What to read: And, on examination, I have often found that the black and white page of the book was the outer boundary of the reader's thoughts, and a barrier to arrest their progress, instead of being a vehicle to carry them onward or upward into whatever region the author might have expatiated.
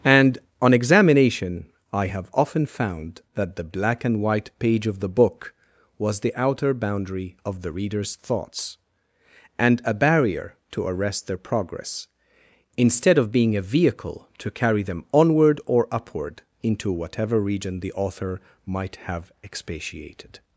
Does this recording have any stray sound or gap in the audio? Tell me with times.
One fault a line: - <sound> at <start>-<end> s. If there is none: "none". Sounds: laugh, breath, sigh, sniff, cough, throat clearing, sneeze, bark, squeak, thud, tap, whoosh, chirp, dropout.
none